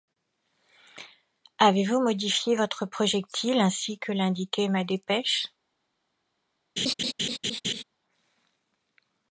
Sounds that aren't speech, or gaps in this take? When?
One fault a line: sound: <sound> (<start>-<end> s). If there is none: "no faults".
sound: laugh (6.8-7.8 s)